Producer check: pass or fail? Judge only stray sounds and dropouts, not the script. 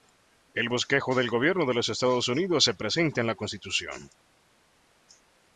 pass